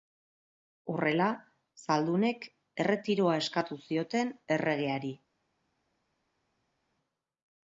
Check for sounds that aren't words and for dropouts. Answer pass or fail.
pass